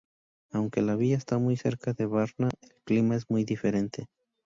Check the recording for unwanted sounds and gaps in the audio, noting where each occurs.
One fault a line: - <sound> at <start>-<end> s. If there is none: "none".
none